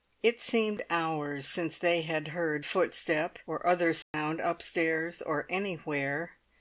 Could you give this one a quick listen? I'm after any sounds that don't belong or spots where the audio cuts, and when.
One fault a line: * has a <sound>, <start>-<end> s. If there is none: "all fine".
* has a dropout, 4.0-4.1 s